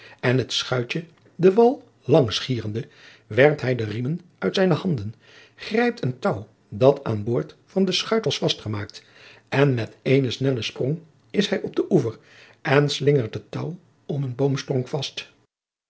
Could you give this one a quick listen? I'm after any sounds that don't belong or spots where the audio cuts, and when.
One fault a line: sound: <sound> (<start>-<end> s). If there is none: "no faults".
no faults